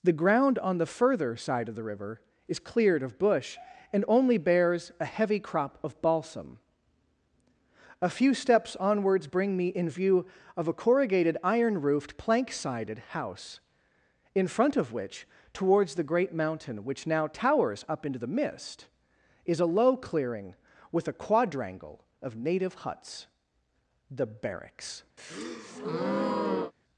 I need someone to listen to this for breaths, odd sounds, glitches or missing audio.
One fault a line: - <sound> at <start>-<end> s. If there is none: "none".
- breath at 25.2-26.7 s